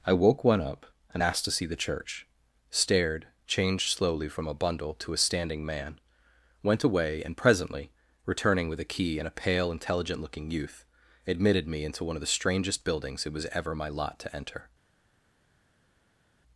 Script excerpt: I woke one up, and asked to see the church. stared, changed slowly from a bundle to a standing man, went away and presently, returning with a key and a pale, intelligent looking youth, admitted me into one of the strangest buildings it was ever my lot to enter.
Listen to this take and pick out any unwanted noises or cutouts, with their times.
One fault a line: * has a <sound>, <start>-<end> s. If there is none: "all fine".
all fine